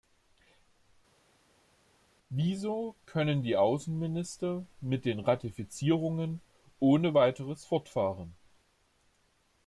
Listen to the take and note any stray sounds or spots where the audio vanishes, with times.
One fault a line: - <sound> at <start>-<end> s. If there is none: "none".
none